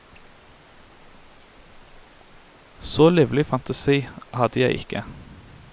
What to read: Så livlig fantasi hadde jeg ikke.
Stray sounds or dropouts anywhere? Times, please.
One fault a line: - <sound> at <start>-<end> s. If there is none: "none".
none